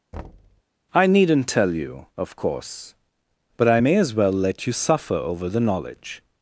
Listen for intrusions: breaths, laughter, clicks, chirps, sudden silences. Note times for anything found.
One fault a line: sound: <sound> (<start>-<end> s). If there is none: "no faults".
sound: thud (0.1-0.6 s)